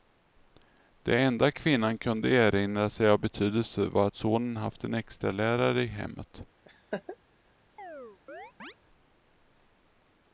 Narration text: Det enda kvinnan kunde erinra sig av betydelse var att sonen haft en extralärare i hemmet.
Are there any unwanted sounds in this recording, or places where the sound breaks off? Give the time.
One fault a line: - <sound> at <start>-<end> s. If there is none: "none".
- laugh at 6.6-7.2 s
- chirp at 7.8-8.7 s